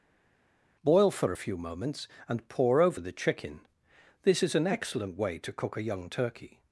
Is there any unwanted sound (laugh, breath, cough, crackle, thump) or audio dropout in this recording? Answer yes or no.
no